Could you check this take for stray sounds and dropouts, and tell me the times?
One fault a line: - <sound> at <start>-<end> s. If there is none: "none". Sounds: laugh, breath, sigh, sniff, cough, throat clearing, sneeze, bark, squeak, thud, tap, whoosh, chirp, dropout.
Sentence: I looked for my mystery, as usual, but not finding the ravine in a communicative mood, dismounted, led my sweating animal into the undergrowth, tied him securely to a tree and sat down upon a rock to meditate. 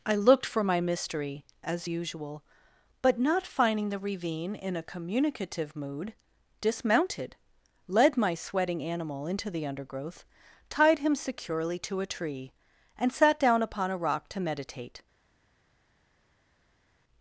none